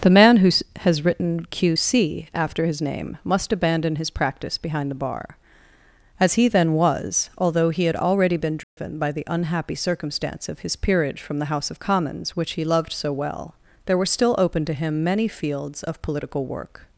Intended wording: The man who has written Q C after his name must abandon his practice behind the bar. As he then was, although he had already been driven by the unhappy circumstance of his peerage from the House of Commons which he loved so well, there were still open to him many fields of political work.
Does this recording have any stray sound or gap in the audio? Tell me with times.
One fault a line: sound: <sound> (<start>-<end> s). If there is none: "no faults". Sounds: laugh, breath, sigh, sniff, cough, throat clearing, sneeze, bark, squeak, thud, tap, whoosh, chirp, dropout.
sound: dropout (8.6-8.8 s)